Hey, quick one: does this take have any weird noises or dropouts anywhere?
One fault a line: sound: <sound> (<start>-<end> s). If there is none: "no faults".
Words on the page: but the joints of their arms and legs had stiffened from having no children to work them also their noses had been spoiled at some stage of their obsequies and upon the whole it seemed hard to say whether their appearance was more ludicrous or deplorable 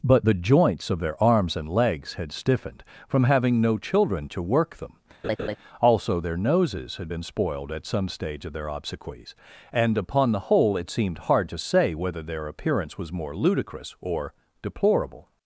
sound: laugh (5.2-5.6 s)